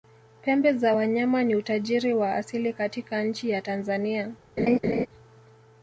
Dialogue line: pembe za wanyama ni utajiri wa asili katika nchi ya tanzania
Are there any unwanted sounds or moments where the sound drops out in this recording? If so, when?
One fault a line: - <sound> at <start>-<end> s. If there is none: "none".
- laugh at 4.6-5.1 s